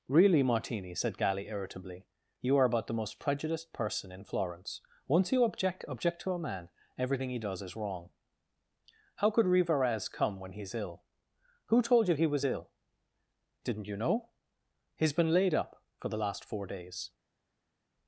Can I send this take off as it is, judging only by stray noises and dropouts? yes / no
yes